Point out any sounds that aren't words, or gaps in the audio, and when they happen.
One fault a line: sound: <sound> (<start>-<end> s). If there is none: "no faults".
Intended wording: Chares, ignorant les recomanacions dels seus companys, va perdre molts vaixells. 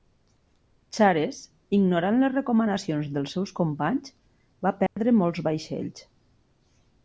sound: dropout (4.9-5.0 s)